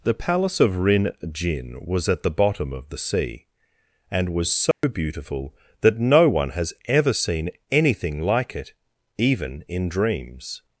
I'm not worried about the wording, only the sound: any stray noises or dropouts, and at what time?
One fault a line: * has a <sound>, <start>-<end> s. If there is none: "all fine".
* has a dropout, 4.7-4.8 s